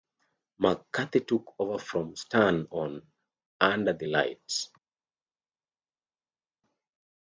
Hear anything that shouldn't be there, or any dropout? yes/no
no